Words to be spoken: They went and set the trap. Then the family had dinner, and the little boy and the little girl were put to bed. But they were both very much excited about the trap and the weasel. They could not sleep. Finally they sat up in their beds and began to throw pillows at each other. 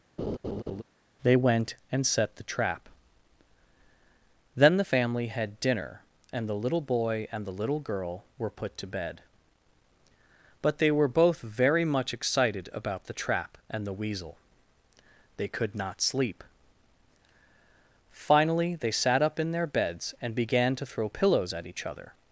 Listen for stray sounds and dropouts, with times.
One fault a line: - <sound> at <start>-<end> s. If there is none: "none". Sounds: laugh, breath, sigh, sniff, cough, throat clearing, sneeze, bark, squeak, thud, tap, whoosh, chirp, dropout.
- laugh at 0.2-0.8 s